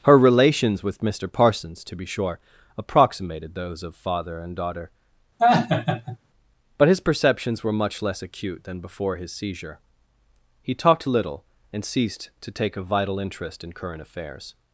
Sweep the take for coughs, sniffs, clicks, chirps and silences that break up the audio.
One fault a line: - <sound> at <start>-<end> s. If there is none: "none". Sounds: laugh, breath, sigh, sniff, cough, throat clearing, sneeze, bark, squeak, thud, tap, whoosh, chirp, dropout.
- laugh at 5.4-6.2 s